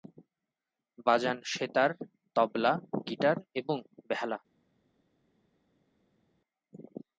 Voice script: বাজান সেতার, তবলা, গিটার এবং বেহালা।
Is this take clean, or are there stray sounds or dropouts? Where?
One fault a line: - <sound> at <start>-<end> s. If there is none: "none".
none